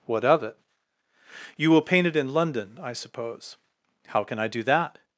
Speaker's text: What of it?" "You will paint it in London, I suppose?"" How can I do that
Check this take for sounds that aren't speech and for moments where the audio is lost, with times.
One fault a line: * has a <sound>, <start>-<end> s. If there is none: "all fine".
all fine